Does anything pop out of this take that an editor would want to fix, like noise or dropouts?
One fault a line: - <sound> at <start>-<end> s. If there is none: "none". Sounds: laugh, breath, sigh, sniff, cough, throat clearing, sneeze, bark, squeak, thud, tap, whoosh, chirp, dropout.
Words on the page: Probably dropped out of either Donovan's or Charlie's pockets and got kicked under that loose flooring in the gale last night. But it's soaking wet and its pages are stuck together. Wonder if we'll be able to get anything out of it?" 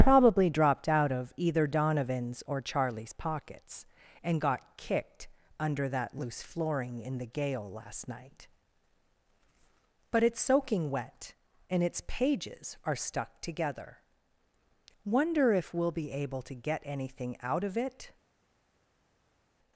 none